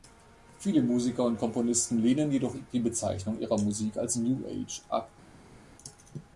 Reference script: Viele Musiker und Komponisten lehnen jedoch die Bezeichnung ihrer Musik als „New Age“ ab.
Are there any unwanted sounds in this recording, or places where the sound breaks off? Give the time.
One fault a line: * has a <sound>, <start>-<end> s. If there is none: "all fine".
all fine